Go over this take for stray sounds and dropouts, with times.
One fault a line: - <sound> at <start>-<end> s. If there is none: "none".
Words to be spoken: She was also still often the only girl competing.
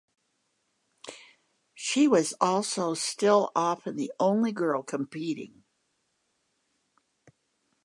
none